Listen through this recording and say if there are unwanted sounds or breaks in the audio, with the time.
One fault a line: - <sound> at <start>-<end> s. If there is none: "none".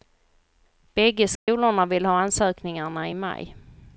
- dropout at 1.4-1.5 s